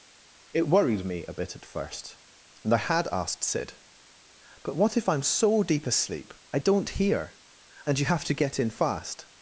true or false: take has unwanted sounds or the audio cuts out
false